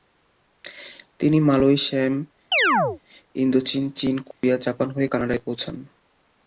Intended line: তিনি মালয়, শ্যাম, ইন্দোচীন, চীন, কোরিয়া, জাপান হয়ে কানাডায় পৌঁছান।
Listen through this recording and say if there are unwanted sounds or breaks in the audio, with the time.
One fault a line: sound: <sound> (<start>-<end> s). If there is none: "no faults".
sound: chirp (2.5-3.0 s)
sound: dropout (4.3-4.4 s)